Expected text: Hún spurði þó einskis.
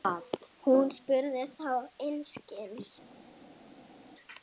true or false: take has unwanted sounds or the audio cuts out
false